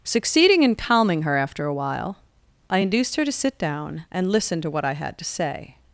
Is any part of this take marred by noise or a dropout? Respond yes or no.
no